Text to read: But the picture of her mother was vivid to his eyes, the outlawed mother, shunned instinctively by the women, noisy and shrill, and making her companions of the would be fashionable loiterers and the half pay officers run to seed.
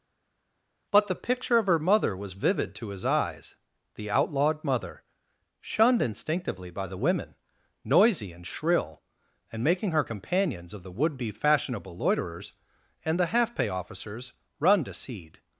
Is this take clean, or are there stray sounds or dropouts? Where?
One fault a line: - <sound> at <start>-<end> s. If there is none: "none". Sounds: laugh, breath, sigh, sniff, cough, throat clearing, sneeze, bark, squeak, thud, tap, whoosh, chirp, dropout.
none